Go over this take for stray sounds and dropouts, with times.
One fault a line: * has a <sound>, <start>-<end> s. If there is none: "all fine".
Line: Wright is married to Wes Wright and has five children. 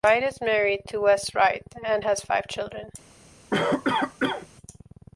* has a cough, 3.5-4.5 s